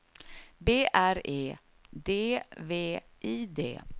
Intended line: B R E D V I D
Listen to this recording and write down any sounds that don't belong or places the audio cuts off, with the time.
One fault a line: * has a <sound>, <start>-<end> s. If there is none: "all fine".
all fine